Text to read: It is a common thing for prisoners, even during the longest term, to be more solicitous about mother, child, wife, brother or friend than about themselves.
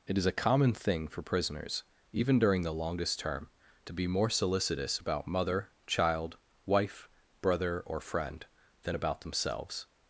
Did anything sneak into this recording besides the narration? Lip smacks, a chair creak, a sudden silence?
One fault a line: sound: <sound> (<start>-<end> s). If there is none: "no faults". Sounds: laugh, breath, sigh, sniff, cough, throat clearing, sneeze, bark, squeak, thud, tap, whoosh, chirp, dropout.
no faults